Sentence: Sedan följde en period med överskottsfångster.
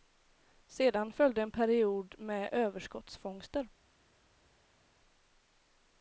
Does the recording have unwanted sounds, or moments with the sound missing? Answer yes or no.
no